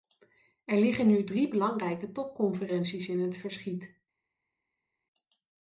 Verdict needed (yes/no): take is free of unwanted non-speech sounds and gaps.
yes